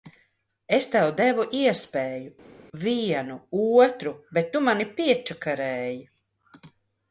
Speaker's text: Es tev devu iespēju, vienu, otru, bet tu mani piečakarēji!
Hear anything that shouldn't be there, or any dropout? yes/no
no